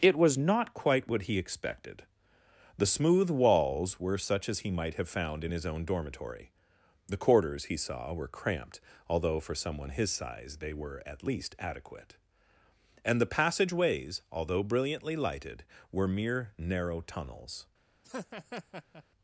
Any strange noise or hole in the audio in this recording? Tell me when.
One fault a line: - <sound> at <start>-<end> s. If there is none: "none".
- laugh at 18.0-19.0 s